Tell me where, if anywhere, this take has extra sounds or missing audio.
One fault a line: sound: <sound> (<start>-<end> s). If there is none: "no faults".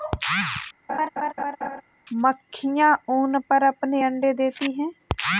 sound: laugh (0.9-1.8 s)